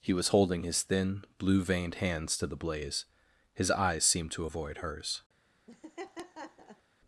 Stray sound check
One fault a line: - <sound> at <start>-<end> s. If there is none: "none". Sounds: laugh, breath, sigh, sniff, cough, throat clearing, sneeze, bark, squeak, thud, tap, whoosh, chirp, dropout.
- laugh at 5.7-6.8 s